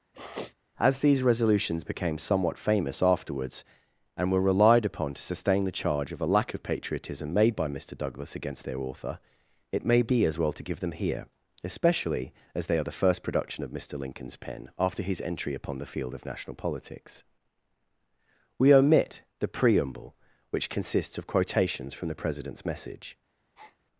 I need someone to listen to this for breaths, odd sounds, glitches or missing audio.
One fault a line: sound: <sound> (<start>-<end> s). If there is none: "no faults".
sound: sniff (0.1-0.5 s)
sound: breath (23.6-23.8 s)